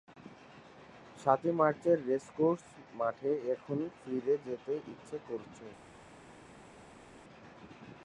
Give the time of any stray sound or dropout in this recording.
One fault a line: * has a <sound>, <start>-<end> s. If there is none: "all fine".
all fine